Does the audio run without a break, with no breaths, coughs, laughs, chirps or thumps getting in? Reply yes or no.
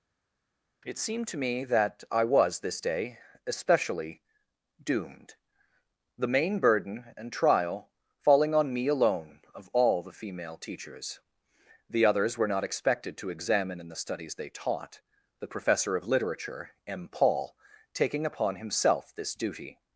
yes